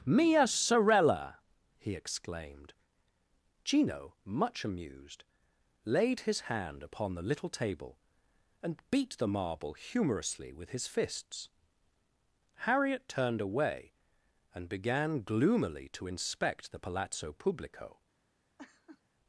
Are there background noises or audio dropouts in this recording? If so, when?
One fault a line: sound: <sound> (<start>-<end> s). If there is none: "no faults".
sound: laugh (18.6-19.0 s)